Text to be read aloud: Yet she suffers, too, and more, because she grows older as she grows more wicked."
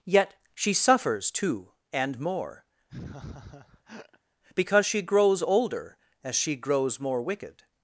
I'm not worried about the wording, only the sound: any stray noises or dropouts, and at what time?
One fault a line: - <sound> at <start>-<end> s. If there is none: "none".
- laugh at 2.9-4.2 s